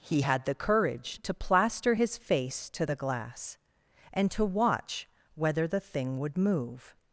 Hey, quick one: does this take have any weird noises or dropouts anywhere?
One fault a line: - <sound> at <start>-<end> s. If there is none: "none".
none